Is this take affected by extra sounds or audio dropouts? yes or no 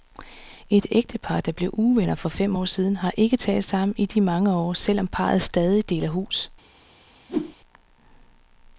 yes